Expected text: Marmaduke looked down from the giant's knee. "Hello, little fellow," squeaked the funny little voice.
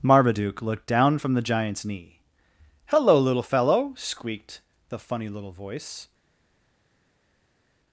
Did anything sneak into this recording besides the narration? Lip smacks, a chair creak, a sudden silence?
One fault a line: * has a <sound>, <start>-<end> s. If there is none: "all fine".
all fine